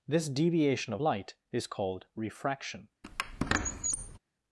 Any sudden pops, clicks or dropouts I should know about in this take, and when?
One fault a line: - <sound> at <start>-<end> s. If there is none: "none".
- squeak at 3.0-4.2 s